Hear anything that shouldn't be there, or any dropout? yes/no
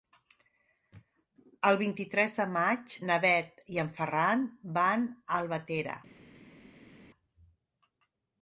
no